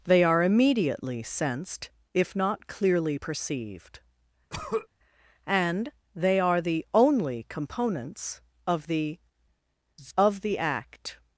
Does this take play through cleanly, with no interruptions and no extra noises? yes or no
no